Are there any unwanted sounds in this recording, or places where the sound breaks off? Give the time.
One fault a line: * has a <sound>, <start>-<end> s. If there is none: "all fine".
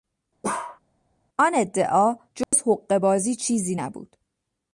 * has a bark, 0.4-0.8 s
* has a dropout, 2.4-2.5 s